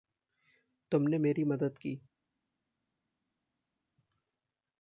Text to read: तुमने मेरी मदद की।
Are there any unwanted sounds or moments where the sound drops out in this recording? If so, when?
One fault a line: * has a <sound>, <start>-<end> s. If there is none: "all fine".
all fine